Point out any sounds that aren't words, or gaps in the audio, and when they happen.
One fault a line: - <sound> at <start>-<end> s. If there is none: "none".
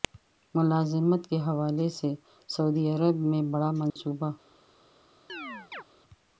- dropout at 3.9-4.0 s
- chirp at 5.3-5.8 s